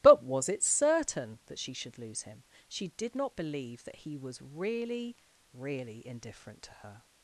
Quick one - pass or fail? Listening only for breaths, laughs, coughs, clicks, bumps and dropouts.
pass